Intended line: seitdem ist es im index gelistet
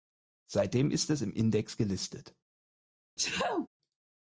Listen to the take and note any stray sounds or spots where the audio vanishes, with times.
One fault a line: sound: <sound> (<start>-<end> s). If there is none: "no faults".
sound: sneeze (3.2-3.7 s)